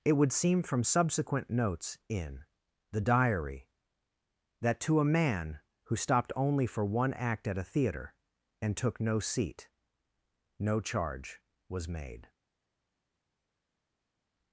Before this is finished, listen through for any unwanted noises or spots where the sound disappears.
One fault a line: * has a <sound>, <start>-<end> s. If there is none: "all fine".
all fine